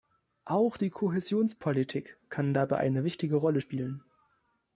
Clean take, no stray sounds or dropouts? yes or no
yes